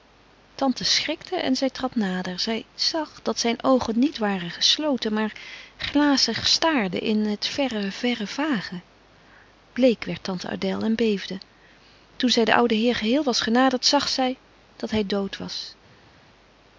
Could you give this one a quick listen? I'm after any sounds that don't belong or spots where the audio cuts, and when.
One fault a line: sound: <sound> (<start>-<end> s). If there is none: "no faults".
no faults